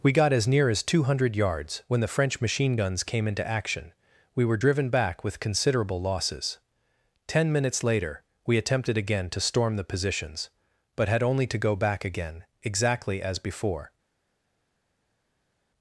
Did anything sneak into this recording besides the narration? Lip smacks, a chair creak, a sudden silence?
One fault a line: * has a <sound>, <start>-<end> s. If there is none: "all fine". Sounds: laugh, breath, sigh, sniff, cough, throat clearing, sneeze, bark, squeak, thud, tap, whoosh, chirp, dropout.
all fine